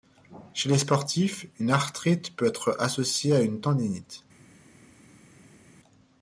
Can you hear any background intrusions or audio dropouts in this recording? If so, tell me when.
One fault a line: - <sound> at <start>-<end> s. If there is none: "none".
none